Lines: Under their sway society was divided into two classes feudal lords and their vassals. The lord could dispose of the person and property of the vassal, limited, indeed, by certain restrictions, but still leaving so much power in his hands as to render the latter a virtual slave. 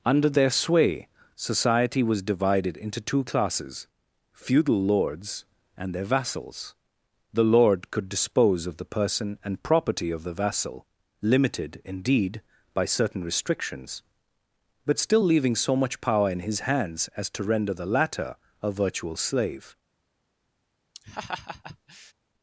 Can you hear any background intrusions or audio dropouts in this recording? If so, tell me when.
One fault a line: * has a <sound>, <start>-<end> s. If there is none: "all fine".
* has a laugh, 20.9-22.1 s